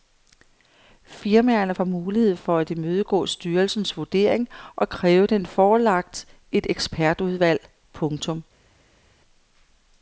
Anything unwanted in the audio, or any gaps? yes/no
no